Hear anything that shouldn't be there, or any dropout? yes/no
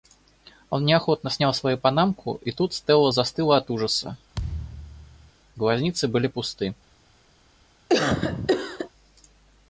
yes